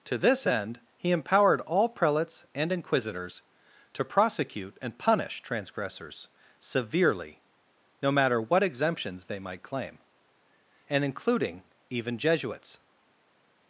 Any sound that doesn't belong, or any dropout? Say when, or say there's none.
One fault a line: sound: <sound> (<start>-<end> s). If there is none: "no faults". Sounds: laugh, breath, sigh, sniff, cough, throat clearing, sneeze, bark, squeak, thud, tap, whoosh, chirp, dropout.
no faults